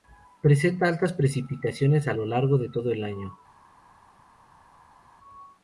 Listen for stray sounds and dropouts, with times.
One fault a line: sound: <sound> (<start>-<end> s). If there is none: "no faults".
no faults